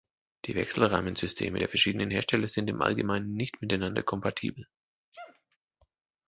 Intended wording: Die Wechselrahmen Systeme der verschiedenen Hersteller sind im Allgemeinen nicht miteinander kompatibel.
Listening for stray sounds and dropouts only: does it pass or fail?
fail